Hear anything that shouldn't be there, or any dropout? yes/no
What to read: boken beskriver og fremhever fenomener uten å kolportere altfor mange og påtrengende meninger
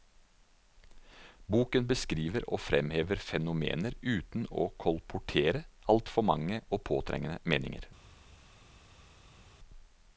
no